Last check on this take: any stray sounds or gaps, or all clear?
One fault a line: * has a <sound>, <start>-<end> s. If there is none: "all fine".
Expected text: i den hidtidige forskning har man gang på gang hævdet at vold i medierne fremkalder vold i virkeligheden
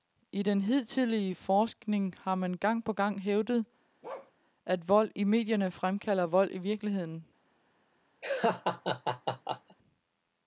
* has a bark, 4.0-4.3 s
* has a laugh, 8.2-9.8 s